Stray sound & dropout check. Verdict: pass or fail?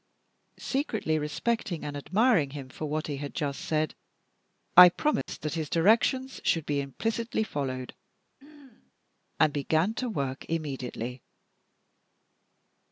fail